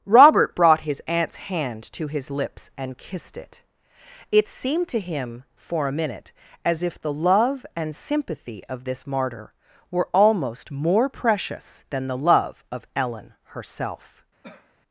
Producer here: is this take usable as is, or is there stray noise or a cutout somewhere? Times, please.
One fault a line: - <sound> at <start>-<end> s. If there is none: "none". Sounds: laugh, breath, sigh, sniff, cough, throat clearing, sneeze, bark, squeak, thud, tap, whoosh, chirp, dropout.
- cough at 14.4-14.7 s